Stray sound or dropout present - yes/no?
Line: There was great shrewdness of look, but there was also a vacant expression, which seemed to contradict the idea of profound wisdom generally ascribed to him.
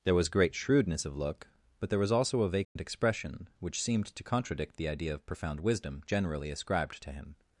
yes